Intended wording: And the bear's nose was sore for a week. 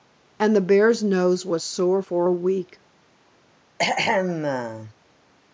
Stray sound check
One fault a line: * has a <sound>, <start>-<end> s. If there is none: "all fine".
* has a throat clearing, 3.8-4.9 s